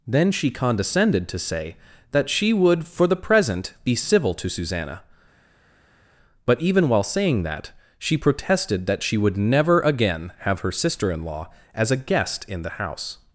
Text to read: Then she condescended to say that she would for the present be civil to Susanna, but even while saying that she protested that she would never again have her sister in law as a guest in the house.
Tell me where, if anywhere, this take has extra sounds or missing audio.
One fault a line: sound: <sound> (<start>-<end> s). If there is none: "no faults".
no faults